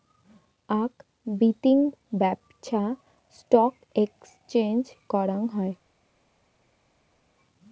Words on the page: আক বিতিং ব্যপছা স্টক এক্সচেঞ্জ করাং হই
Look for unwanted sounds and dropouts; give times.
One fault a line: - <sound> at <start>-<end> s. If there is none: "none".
none